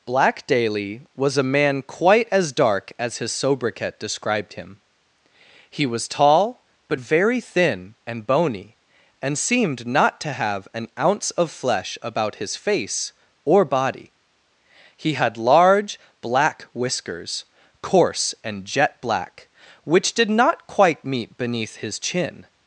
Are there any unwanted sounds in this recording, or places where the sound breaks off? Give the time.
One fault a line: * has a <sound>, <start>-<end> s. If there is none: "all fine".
all fine